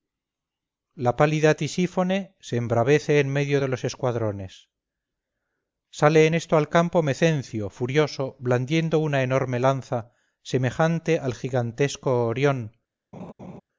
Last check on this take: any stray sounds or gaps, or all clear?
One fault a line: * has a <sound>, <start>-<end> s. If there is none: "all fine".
* has a laugh, 13.1-13.6 s